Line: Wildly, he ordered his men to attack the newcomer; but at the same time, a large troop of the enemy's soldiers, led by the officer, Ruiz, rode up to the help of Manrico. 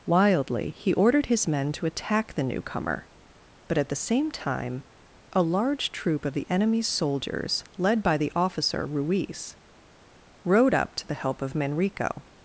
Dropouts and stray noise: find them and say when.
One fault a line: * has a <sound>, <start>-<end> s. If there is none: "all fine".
all fine